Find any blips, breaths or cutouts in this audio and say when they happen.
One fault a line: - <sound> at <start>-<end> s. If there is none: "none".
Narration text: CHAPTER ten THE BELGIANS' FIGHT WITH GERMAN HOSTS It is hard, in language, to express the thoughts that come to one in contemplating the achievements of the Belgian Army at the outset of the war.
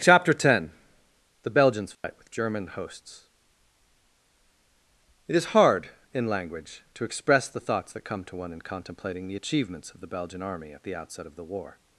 - dropout at 1.9-2.0 s